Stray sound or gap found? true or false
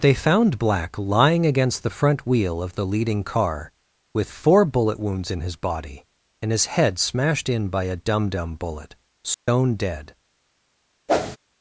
true